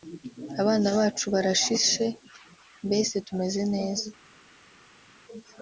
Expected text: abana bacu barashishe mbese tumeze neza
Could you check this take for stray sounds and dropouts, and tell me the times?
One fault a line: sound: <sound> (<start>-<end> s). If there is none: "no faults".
no faults